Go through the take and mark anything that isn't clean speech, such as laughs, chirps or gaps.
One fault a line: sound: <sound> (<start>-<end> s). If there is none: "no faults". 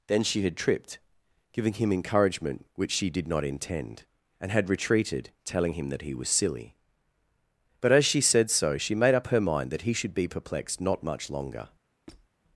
sound: squeak (12.1-12.3 s)